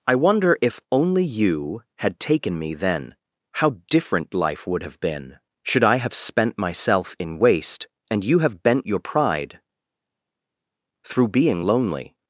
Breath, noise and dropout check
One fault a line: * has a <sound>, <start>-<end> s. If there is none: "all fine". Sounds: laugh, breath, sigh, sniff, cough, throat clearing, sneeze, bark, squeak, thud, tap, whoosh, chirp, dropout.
all fine